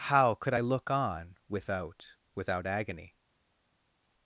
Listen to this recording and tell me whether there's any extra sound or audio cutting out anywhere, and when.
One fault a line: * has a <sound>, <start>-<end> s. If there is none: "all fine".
all fine